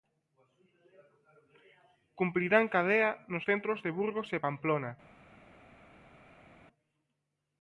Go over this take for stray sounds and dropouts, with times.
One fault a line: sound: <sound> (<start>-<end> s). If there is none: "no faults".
no faults